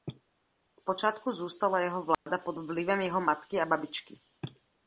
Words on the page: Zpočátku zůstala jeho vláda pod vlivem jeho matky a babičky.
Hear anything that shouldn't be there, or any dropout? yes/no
yes